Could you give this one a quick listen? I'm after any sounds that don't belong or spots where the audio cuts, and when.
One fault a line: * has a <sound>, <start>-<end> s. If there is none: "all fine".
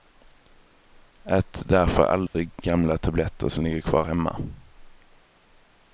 * has a dropout, 2.3-2.3 s